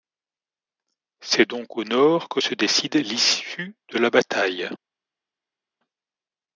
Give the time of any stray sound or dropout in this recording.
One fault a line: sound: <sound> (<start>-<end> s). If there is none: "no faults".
no faults